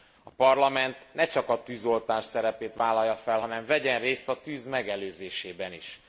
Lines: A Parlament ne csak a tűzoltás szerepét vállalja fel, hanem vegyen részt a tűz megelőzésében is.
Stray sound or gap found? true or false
false